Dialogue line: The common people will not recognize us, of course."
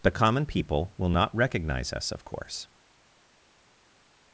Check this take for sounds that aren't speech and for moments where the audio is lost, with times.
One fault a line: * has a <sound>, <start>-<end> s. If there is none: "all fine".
all fine